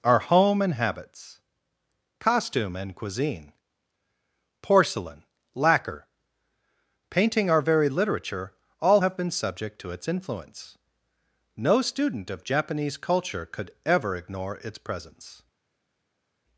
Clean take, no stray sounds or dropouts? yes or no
yes